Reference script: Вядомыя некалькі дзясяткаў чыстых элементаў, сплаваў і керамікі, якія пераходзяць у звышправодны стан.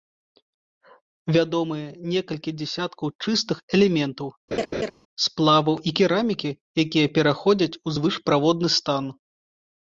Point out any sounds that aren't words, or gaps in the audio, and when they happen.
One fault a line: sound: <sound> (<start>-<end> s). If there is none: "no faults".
sound: laugh (4.5-4.9 s)